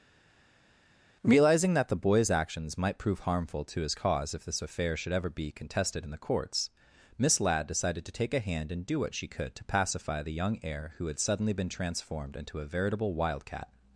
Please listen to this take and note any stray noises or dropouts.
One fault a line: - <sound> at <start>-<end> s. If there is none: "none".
none